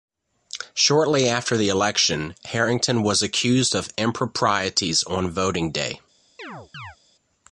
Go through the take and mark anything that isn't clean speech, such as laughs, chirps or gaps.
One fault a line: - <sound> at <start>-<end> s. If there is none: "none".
- chirp at 6.4-7.0 s